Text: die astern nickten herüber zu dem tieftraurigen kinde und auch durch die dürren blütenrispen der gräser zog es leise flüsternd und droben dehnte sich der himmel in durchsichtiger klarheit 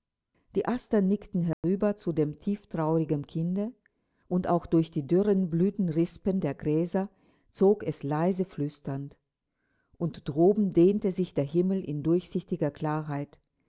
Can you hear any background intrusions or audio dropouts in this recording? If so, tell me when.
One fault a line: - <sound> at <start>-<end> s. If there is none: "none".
- dropout at 1.5-1.6 s